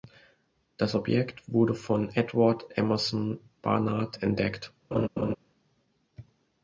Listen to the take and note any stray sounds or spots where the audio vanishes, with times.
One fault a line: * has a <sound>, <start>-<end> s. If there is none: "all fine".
* has a laugh, 4.9-5.4 s